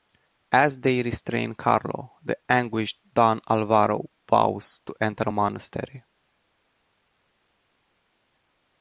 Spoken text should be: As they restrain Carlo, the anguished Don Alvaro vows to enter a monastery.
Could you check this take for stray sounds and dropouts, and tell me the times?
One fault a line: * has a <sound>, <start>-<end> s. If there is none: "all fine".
all fine